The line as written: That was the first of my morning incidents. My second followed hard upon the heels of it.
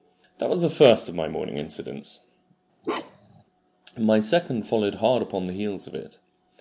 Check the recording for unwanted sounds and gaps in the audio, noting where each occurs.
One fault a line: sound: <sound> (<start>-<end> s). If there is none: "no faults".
sound: bark (2.8-3.4 s)